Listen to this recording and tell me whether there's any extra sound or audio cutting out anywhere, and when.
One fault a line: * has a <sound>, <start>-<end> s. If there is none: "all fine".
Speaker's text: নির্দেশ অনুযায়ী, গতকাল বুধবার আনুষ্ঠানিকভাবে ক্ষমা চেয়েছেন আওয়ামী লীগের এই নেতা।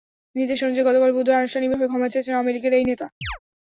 * has a chirp, 3.2-3.4 s